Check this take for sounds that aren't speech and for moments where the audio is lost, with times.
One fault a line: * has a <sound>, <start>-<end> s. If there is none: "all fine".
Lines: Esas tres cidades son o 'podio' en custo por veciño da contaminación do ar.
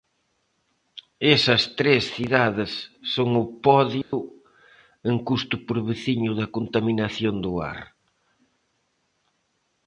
* has a dropout, 4.0-4.1 s